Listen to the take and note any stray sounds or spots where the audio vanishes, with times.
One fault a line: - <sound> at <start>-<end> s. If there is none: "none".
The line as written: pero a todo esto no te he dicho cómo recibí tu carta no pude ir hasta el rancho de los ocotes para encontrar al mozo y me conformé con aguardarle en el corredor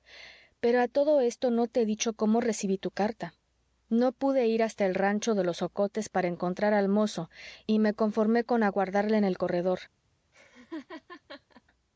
- laugh at 10.3-11.6 s